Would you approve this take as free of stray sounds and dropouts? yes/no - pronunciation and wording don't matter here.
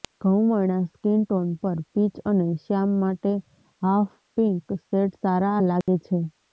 no